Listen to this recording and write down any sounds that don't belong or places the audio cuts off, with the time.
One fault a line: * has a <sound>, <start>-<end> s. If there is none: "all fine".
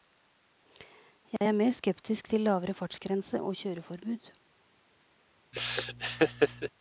* has a dropout, 1.4-1.4 s
* has a laugh, 5.5-6.7 s